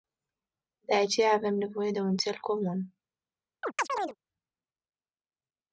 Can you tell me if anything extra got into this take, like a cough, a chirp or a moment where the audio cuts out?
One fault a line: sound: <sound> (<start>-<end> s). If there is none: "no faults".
sound: chirp (3.6-4.2 s)